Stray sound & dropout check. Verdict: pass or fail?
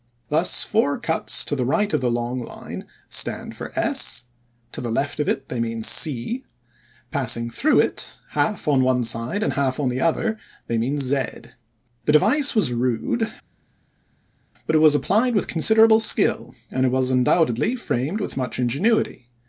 pass